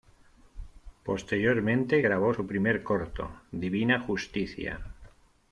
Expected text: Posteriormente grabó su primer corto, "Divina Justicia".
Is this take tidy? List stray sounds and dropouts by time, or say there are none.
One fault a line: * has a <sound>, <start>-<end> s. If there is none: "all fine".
all fine